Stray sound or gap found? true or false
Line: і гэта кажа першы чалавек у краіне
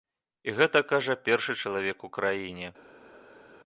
false